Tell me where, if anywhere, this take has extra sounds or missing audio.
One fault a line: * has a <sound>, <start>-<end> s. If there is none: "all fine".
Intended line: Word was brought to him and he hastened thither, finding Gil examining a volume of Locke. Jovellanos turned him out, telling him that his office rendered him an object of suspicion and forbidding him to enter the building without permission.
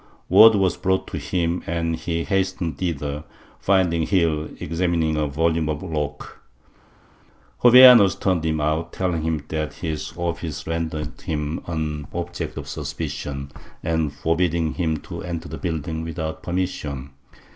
all fine